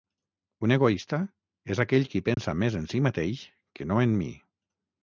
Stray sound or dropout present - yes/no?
yes